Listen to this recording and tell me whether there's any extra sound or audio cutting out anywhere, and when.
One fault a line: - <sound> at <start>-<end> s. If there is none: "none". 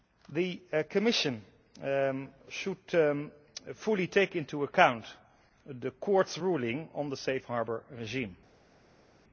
none